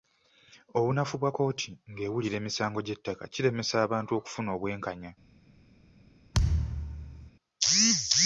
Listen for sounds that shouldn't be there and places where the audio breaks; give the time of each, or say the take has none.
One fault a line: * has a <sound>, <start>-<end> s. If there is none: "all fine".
* has a thud, 6.3-7.3 s